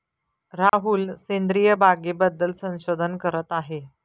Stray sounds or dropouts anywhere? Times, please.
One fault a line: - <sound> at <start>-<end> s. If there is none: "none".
- dropout at 0.7-0.7 s